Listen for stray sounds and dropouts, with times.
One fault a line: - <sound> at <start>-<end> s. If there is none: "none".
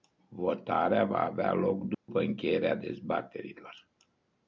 - dropout at 1.9-2.1 s